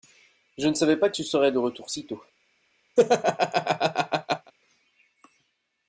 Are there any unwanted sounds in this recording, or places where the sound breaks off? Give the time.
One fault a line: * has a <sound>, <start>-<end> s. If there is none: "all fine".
* has a laugh, 3.0-4.5 s